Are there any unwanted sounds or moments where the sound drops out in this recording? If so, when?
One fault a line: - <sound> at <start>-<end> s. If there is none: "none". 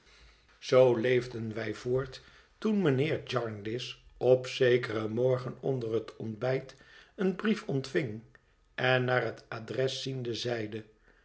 none